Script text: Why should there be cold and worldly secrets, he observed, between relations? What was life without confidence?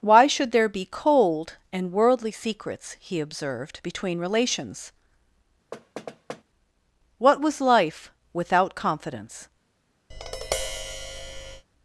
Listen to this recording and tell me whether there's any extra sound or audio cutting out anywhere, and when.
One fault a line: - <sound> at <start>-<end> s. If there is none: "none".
- thud at 5.7-6.4 s
- tap at 10.1-11.7 s